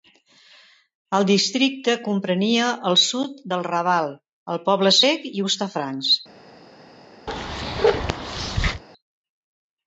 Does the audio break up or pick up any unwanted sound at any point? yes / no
yes